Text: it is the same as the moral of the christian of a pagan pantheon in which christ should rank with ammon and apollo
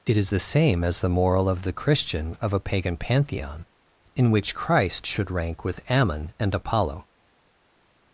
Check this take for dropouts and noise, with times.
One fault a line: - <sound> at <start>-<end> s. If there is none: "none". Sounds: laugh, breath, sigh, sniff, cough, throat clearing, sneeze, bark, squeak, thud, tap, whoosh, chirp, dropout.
none